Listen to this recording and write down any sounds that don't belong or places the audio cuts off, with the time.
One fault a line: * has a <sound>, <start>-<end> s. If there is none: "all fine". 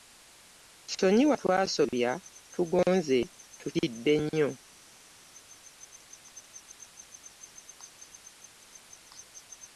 all fine